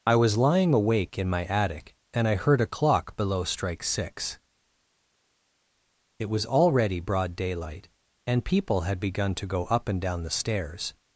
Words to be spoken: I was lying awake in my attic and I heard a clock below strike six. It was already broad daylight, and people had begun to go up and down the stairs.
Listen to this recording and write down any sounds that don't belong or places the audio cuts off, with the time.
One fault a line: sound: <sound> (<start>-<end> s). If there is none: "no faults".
no faults